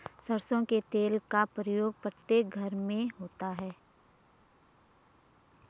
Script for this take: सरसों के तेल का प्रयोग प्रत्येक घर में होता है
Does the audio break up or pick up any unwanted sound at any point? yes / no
no